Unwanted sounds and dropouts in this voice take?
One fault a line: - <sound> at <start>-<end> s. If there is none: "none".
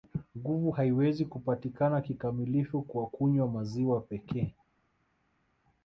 none